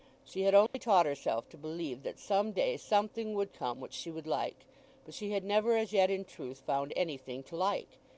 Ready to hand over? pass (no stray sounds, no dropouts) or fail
fail